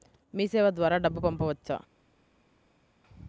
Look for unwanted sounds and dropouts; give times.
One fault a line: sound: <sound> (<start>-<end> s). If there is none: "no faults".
no faults